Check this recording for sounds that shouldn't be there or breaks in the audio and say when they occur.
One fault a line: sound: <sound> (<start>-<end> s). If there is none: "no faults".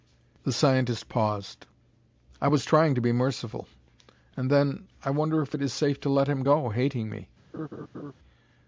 sound: laugh (7.5-8.1 s)